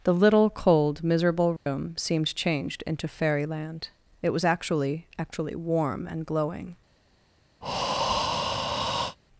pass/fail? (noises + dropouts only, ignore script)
fail